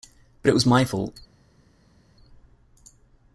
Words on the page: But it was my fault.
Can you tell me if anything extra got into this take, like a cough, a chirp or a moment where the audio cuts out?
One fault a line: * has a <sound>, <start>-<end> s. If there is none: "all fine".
all fine